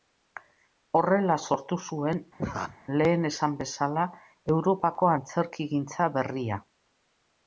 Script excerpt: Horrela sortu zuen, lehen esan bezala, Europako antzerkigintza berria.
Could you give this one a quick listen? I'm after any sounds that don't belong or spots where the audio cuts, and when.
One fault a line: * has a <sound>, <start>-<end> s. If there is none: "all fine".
* has a laugh, 2.4-2.8 s